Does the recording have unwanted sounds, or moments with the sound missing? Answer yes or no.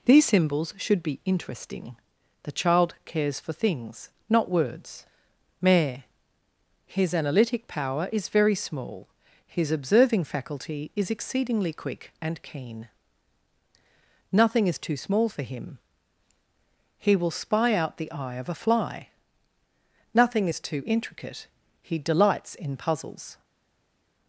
no